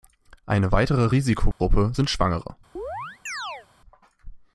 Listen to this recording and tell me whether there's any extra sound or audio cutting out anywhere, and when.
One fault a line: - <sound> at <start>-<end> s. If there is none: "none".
- dropout at 1.5-1.6 s
- chirp at 2.8-3.7 s